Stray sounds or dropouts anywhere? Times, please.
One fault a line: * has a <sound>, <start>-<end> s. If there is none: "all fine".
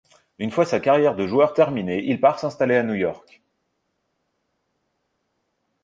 all fine